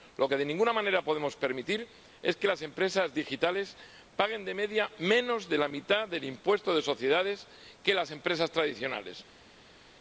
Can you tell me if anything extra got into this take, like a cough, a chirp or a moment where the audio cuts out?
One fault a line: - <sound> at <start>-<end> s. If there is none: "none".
none